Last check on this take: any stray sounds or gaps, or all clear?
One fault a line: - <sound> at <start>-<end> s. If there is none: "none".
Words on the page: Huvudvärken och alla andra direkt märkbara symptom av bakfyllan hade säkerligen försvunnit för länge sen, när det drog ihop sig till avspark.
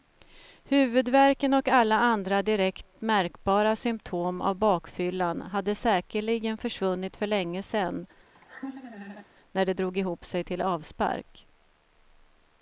- laugh at 8.3-9.3 s